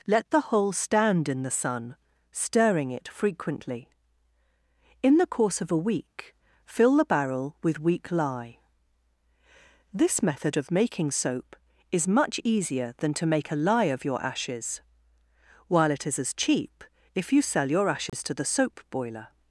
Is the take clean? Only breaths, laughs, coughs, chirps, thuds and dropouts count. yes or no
no